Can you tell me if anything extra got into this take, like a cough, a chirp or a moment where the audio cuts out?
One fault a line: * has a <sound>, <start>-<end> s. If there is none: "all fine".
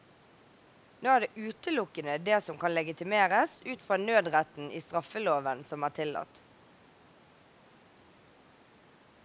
all fine